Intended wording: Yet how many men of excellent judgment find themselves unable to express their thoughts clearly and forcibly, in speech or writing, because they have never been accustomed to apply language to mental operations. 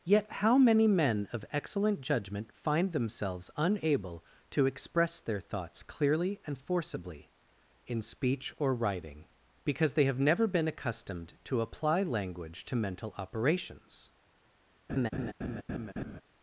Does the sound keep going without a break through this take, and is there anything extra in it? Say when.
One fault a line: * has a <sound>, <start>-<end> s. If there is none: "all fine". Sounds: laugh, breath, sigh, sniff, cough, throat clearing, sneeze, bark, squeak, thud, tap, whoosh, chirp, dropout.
* has a laugh, 14.9-16.2 s